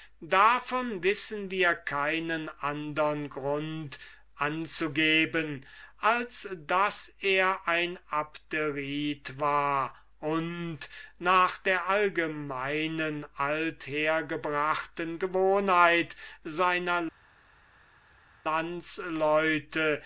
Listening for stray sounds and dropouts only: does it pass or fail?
pass